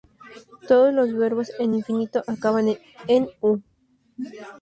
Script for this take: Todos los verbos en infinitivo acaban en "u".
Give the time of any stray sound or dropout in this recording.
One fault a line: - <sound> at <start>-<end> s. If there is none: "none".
none